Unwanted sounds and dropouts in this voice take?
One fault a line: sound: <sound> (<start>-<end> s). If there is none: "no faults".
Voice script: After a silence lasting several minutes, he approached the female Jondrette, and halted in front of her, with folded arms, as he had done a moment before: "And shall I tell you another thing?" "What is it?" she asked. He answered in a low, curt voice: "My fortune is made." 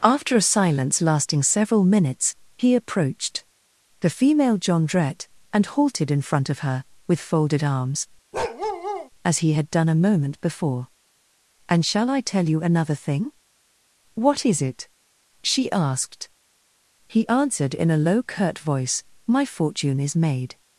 sound: bark (8.3-9.1 s)